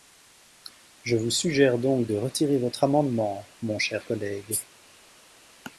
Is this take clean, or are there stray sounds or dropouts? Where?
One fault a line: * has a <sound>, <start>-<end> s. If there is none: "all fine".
all fine